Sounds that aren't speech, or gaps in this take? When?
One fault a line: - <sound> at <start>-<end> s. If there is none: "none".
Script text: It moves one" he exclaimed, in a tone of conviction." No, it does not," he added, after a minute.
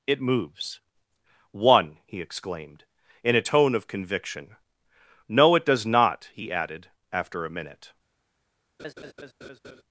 - laugh at 8.8-9.8 s